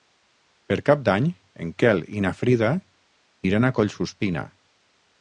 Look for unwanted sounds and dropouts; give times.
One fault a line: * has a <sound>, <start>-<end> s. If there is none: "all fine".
all fine